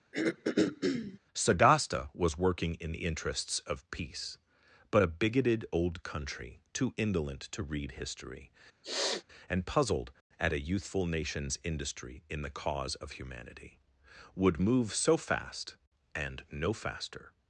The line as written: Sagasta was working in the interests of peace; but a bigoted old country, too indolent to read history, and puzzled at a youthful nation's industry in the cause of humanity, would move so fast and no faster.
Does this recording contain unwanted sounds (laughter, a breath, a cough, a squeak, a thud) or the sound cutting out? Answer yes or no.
yes